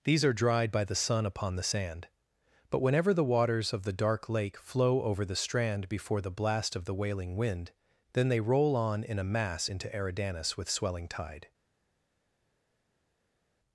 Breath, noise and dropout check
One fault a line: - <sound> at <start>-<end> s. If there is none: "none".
none